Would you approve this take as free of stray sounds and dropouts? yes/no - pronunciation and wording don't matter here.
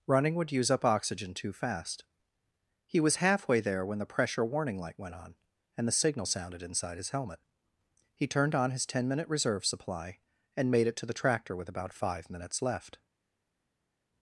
yes